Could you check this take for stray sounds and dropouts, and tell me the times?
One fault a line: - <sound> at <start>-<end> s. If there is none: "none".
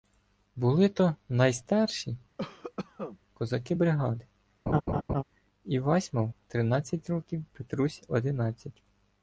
- cough at 2.4-3.2 s
- laugh at 4.7-5.2 s